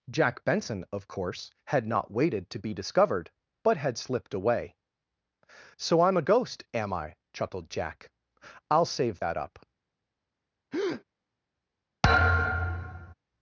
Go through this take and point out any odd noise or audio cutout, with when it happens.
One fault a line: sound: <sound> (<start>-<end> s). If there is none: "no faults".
sound: breath (10.7-11.0 s)
sound: thud (12.0-13.1 s)